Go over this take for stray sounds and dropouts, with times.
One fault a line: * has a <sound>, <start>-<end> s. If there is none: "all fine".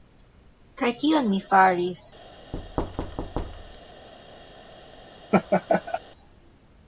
* has a thud, 2.5-4.1 s
* has a laugh, 5.3-6.0 s